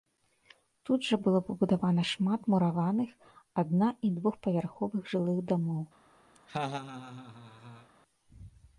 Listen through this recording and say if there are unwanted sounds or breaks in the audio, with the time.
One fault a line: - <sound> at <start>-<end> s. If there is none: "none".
- laugh at 6.3-7.9 s